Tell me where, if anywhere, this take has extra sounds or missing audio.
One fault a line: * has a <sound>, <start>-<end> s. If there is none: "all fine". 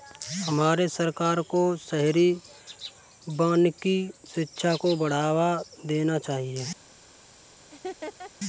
* has a laugh, 7.7-8.3 s